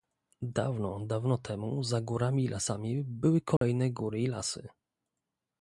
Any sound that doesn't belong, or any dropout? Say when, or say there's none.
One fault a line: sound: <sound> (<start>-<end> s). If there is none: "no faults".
sound: dropout (3.6-3.6 s)